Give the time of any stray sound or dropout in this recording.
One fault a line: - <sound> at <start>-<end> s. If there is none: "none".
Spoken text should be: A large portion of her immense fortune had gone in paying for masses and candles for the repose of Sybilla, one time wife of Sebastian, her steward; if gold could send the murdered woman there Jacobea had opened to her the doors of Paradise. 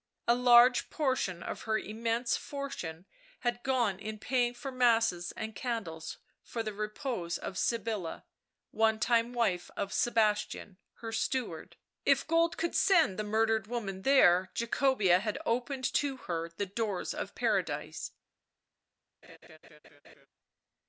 - laugh at 19.2-20.3 s